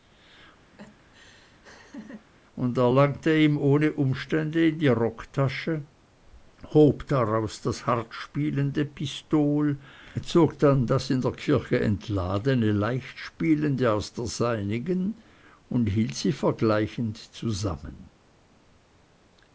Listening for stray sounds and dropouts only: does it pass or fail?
fail